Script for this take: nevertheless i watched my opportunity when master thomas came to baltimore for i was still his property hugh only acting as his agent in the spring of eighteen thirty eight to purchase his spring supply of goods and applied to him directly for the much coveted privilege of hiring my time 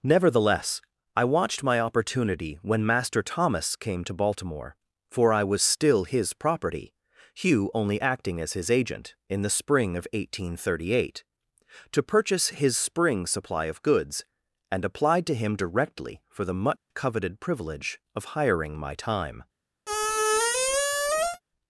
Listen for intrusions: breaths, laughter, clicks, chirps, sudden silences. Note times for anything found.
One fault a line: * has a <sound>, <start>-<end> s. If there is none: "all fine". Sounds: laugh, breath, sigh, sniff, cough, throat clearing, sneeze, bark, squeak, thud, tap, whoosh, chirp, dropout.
* has a dropout, 16.8-16.9 s
* has a squeak, 19.9-21.4 s